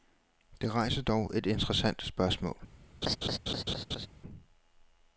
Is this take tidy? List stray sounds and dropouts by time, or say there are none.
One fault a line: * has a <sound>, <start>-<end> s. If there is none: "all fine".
* has a laugh, 3.0-4.1 s